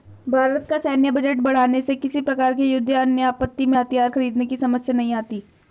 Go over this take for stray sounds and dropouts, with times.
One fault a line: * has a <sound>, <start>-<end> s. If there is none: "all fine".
all fine